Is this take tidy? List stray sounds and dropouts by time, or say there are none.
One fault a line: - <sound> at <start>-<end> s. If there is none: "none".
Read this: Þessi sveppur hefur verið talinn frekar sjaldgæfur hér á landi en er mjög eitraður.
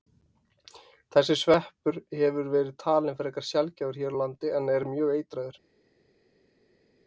none